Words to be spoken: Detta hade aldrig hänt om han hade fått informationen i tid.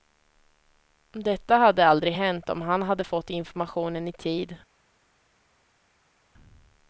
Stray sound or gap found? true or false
false